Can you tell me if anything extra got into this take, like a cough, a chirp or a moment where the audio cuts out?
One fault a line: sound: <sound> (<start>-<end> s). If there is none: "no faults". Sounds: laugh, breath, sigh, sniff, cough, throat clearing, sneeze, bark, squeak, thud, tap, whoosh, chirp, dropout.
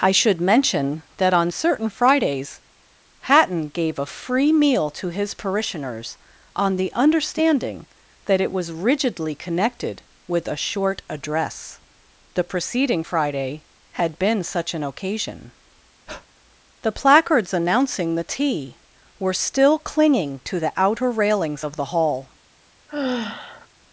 sound: breath (16.1-16.3 s)
sound: sigh (22.9-23.7 s)